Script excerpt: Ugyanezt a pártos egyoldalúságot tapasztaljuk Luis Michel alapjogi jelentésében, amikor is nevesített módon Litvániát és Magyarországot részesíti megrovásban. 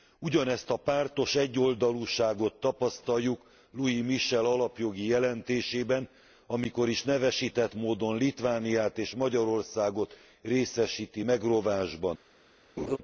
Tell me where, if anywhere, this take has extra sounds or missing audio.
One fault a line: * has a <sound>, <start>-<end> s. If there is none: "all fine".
* has a laugh, 12.8-13.0 s